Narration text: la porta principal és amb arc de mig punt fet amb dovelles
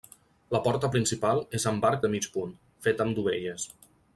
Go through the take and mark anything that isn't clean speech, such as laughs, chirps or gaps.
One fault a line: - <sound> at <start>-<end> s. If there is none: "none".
none